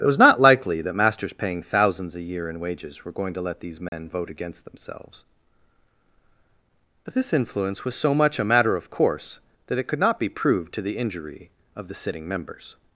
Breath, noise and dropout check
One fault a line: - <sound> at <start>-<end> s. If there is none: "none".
- dropout at 3.9-3.9 s